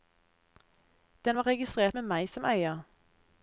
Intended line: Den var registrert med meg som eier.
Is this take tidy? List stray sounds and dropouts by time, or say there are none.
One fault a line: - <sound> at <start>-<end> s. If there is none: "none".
none